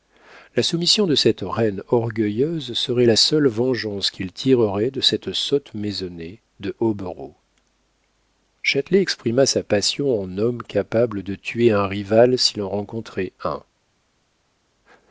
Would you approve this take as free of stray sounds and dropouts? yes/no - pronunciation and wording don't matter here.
yes